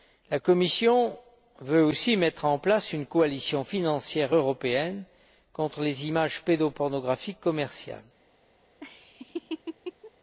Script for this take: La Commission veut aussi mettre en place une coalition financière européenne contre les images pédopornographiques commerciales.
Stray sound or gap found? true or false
true